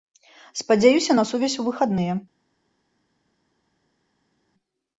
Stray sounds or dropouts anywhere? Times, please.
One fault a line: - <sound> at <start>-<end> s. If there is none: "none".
none